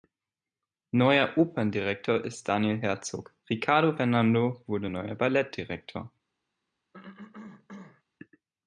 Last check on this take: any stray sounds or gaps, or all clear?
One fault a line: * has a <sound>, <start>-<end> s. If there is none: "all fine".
* has a cough, 6.9-8.0 s